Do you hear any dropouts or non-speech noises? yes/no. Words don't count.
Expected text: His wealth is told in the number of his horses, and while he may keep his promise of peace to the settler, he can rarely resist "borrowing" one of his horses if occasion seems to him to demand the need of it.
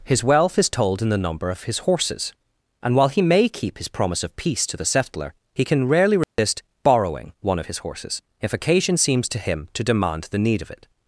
yes